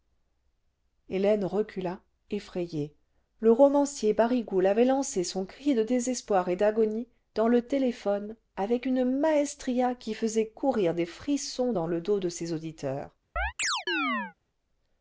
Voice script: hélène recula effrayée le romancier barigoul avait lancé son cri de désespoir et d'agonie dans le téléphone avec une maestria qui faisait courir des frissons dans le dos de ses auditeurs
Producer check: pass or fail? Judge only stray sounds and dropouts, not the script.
fail